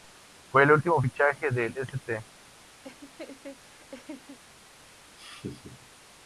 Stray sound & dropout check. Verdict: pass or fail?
fail